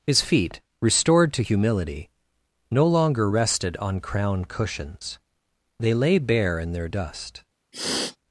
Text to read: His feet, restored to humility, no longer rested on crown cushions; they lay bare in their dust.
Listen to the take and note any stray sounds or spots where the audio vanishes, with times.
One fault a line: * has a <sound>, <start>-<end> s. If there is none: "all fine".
* has a sniff, 7.7-8.2 s